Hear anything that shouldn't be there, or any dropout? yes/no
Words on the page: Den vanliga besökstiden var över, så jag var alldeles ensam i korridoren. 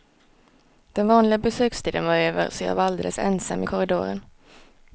no